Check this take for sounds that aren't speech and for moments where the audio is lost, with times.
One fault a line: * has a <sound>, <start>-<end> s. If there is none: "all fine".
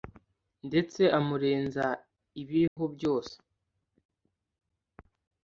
* has a dropout, 2.7-2.8 s